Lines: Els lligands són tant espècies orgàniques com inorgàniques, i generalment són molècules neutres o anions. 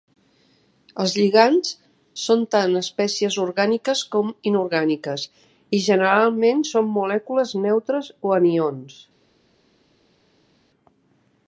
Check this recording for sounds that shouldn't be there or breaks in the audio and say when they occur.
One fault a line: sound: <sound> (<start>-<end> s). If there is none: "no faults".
no faults